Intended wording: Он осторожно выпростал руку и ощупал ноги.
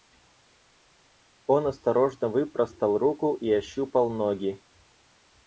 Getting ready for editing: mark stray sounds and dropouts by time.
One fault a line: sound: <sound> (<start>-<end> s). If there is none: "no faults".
no faults